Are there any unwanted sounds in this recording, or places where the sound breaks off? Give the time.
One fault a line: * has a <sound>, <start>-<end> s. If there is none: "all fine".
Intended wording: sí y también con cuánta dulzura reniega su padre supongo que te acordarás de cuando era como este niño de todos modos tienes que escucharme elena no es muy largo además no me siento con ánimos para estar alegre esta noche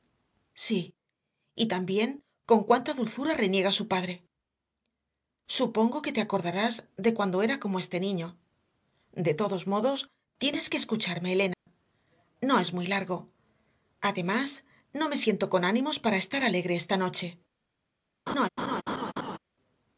* has a dropout, 11.5-11.7 s
* has a laugh, 18.3-19.4 s